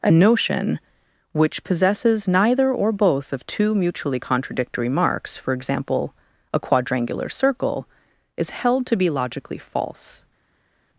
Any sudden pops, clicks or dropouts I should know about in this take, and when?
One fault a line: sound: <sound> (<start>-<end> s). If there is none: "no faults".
no faults